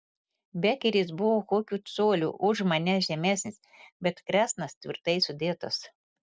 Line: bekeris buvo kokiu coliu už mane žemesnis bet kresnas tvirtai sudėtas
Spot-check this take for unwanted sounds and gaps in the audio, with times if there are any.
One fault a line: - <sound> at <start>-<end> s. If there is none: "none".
none